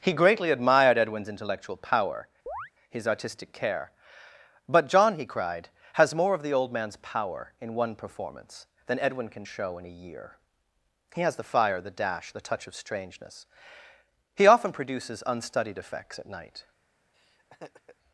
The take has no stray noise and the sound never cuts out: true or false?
false